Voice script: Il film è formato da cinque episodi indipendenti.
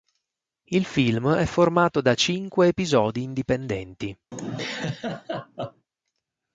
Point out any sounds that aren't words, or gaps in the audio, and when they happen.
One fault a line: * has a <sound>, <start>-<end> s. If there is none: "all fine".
* has a laugh, 4.3-5.9 s